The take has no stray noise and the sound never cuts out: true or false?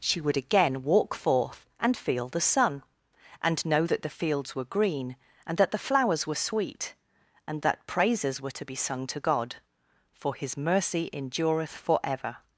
true